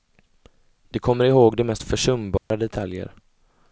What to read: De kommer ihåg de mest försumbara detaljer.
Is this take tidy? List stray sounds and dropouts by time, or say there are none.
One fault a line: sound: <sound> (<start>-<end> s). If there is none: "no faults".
sound: dropout (2.4-2.5 s)